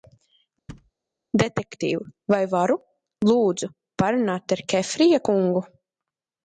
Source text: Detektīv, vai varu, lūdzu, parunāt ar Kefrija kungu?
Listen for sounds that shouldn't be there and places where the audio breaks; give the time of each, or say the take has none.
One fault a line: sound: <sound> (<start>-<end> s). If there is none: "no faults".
sound: thud (0.7-0.9 s)